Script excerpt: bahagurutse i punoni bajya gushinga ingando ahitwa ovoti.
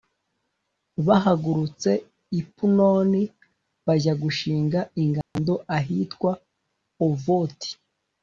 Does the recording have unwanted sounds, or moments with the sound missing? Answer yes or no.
yes